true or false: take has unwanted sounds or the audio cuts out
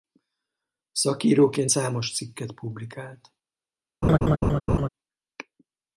true